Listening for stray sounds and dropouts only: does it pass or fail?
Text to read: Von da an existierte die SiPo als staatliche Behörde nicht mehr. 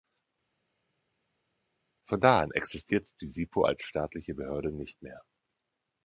pass